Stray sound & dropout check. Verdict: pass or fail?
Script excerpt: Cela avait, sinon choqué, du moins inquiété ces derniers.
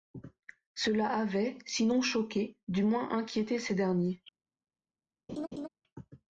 fail